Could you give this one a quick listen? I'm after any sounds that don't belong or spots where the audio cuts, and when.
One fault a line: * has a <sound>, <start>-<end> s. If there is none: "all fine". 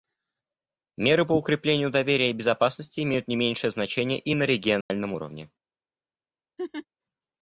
* has a dropout, 4.8-4.9 s
* has a laugh, 6.6-6.9 s